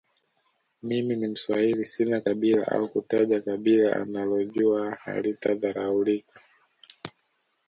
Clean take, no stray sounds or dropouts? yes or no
yes